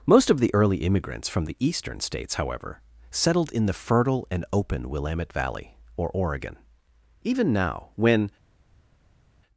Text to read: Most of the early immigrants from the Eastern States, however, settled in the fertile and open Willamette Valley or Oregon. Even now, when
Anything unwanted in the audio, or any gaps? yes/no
no